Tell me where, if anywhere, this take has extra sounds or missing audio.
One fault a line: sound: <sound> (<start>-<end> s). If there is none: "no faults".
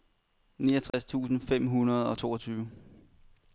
sound: dropout (0.9-0.9 s)